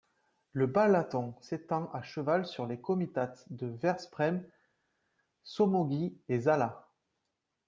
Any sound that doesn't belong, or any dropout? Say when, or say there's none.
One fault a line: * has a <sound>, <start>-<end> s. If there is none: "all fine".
all fine